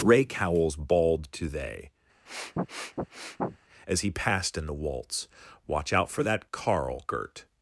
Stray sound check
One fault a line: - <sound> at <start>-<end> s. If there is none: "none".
- sniff at 2.3-3.6 s